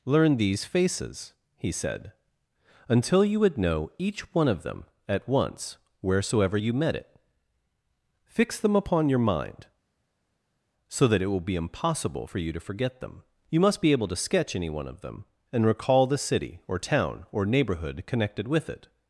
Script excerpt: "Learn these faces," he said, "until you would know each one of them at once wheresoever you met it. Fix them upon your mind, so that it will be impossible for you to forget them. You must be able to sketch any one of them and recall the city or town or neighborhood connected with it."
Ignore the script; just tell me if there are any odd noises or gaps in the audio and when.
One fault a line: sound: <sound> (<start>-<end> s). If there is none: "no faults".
no faults